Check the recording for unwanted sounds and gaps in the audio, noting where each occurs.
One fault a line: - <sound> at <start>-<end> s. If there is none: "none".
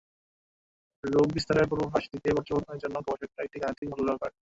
- dropout at 3.8-3.8 s